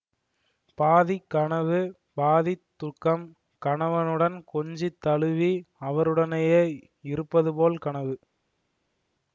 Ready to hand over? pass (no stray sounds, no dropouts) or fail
pass